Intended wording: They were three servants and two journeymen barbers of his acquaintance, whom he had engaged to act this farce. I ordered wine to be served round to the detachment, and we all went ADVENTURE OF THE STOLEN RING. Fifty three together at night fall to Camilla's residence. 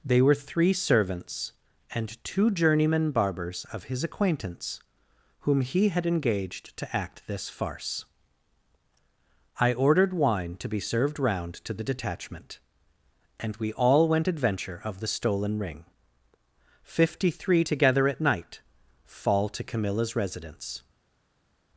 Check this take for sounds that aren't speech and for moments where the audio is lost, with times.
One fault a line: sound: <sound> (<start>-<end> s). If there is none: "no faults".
no faults